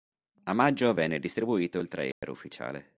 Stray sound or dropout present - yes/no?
yes